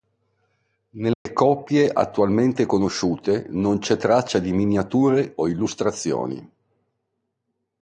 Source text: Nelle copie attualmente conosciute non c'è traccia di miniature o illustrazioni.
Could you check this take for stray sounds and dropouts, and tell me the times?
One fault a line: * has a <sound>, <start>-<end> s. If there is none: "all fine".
* has a dropout, 1.1-1.3 s